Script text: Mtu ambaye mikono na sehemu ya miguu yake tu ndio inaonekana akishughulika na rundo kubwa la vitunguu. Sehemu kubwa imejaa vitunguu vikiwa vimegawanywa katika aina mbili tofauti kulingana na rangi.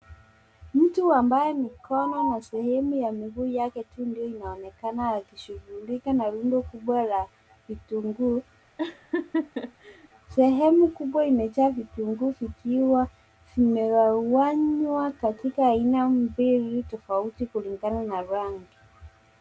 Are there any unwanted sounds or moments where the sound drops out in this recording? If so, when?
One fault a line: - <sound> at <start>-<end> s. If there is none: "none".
- laugh at 8.8-10.1 s